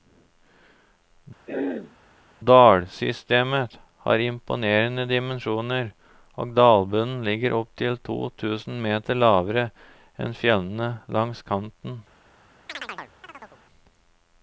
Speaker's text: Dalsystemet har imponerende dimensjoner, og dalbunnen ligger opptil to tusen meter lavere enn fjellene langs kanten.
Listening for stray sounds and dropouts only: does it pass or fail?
fail